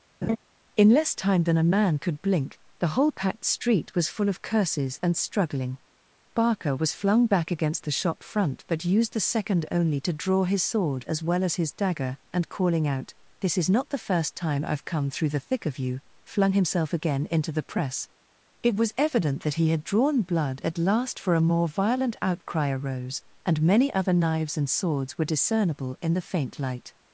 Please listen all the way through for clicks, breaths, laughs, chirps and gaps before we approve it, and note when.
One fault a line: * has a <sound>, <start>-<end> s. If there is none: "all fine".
* has a laugh, 0.2-0.4 s